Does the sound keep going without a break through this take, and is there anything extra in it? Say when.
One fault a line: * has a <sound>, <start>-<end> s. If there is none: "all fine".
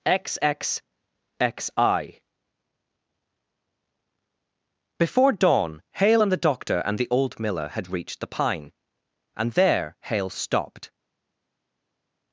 all fine